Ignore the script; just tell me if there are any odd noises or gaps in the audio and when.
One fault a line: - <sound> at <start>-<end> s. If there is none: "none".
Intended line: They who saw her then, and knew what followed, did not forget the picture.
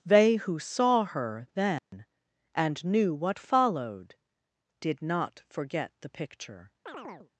- dropout at 1.8-1.9 s
- chirp at 6.9-7.3 s